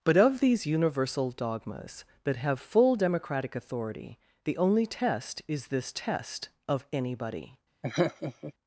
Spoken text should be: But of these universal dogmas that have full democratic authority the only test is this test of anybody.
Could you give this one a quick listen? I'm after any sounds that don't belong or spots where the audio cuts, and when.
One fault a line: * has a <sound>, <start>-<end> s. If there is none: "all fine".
* has a laugh, 7.8-8.5 s